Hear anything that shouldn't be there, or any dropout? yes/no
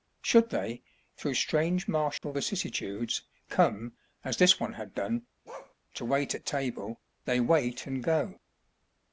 yes